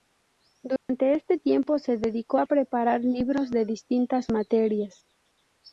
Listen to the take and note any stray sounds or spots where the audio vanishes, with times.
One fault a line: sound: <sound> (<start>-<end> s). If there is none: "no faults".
sound: dropout (0.8-0.9 s)